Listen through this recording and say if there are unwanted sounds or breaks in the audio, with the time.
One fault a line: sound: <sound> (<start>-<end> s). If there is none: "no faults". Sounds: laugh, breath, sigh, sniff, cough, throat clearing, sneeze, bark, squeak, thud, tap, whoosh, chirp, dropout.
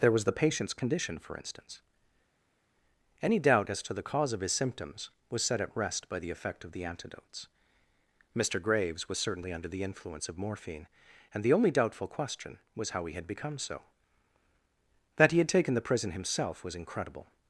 no faults